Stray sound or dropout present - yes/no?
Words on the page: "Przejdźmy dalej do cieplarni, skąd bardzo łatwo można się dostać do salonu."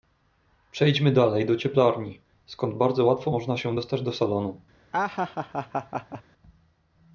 yes